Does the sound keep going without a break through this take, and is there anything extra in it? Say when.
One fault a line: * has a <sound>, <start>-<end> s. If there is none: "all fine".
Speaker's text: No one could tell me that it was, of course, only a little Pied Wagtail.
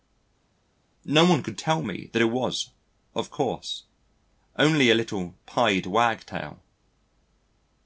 all fine